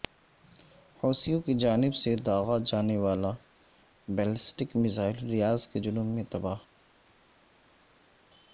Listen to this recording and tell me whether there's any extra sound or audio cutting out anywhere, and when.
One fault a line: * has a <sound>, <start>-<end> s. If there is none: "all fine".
all fine